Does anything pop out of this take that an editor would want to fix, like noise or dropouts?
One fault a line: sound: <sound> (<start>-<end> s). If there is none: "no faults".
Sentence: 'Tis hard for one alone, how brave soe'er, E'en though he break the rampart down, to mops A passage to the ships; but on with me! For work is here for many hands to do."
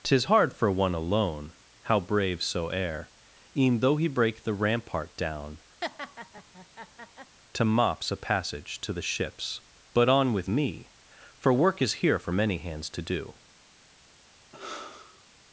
sound: laugh (5.8-7.4 s)
sound: sigh (14.5-15.2 s)